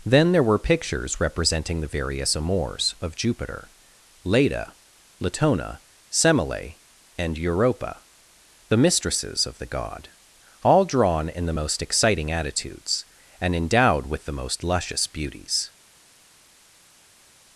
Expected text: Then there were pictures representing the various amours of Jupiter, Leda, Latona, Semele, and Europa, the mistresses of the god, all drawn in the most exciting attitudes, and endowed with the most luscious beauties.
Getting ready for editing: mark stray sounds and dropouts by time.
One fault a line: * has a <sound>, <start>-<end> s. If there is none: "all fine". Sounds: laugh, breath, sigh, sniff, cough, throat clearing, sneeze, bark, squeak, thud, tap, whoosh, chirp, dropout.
all fine